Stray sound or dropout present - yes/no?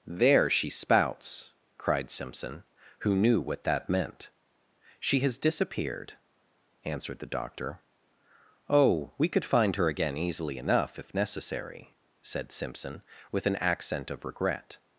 no